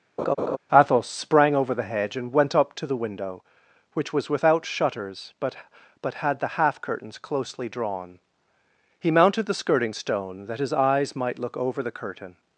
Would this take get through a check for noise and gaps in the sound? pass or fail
fail